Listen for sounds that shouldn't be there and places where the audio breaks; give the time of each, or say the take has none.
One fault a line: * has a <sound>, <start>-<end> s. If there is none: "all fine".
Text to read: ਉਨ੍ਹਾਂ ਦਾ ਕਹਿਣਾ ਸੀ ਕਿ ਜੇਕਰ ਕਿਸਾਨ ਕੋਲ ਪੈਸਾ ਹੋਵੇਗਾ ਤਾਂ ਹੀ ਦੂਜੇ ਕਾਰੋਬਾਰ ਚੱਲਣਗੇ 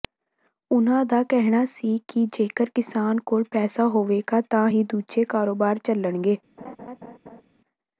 * has a laugh, 6.6-7.4 s